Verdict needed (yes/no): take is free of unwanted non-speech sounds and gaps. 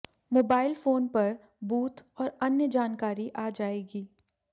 yes